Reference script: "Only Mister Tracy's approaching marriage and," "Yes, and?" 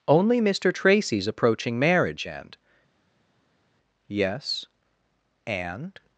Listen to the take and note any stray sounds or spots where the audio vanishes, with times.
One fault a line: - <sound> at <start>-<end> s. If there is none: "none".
none